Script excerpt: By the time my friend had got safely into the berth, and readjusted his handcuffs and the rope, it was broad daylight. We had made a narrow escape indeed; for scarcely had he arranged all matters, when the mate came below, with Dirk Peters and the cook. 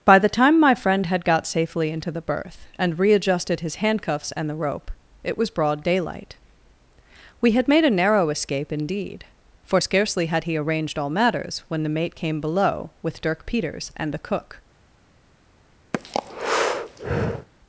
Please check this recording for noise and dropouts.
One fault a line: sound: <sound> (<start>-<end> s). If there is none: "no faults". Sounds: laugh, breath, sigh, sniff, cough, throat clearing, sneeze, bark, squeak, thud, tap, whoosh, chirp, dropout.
sound: breath (15.9-17.5 s)